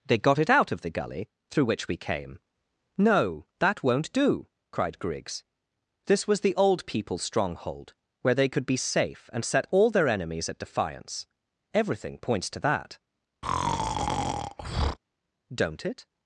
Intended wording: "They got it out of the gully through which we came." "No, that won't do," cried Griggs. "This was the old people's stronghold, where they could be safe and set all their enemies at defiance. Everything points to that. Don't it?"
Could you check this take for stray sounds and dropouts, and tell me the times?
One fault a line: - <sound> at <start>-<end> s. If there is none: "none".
- breath at 13.4-15.0 s